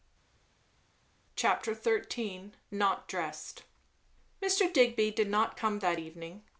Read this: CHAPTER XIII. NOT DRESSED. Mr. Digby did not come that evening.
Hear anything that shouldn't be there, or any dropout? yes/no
no